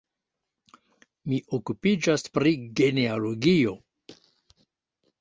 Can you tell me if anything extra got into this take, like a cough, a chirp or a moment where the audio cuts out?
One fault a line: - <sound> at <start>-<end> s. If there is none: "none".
none